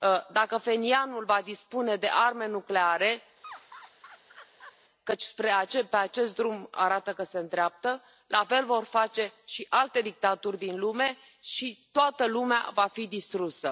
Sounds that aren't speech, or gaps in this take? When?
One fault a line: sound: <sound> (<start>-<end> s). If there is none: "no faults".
sound: laugh (3.4-4.8 s)